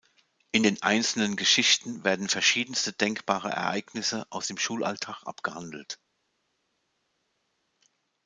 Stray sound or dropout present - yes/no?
no